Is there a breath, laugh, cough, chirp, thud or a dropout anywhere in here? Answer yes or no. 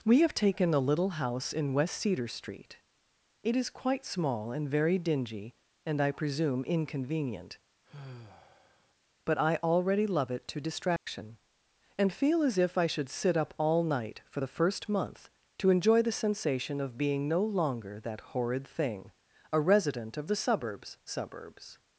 yes